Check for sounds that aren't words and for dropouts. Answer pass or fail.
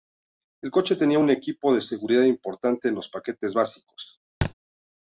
fail